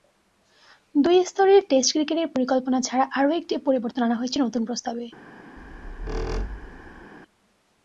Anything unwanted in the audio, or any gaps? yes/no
yes